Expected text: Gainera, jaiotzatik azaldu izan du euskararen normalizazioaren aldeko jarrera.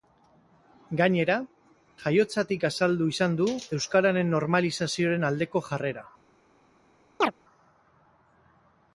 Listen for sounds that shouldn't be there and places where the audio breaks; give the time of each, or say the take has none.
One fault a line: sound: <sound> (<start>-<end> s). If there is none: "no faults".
sound: chirp (7.2-7.3 s)